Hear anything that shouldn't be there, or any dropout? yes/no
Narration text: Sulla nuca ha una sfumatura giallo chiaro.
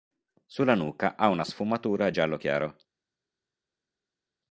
no